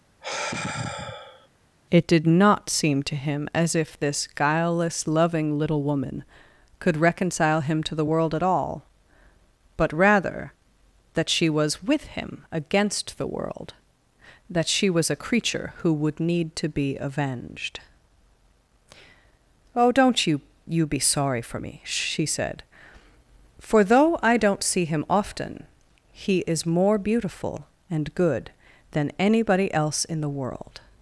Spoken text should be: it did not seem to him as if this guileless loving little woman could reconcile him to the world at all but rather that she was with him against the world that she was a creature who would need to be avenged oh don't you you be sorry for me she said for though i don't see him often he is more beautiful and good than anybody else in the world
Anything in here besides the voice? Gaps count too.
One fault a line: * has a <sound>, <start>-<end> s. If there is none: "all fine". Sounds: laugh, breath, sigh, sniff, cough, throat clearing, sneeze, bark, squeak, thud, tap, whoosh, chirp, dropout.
* has a sigh, 0.2-1.5 s